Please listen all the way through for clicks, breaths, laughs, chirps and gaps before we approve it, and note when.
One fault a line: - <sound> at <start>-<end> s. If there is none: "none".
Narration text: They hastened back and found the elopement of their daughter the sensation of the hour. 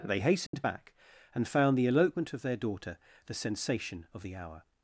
- dropout at 0.5-0.5 s